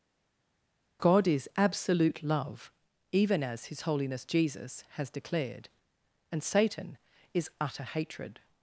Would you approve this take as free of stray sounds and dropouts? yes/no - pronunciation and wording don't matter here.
yes